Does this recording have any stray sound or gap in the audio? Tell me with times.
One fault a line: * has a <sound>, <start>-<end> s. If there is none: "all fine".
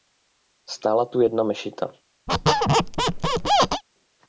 * has a squeak, 2.3-3.8 s